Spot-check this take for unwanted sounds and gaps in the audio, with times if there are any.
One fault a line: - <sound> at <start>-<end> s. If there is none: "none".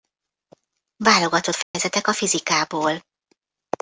- dropout at 1.6-1.7 s